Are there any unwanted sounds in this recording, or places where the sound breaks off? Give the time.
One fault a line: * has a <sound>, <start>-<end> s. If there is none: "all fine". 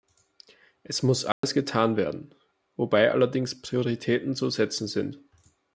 * has a dropout, 1.3-1.4 s